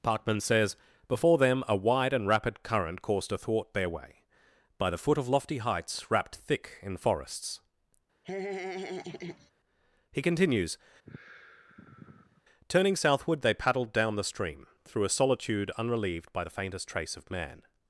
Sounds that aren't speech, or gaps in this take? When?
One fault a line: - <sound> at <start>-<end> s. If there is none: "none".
- laugh at 8.2-9.5 s
- sigh at 11.1-12.4 s